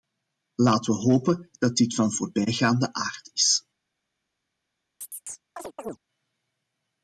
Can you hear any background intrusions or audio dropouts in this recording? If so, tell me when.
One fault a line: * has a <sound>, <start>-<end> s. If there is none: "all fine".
* has a chirp, 5.0-6.0 s